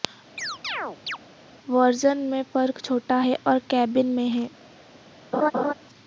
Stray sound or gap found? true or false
true